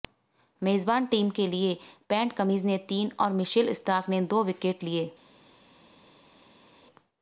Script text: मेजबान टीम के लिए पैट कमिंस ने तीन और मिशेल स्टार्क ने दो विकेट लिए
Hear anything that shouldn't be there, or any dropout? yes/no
no